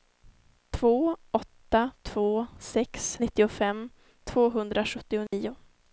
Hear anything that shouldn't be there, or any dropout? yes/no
yes